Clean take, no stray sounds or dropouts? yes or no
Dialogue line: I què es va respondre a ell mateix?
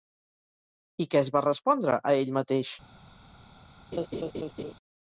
no